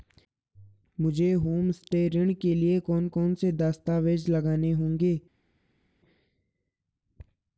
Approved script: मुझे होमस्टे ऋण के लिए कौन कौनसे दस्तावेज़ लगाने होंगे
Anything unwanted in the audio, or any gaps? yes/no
no